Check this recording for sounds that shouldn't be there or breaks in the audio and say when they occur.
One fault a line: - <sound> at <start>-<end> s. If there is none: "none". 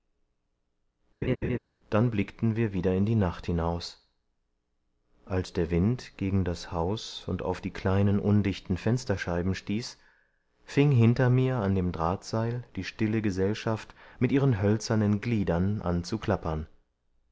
- laugh at 1.2-1.6 s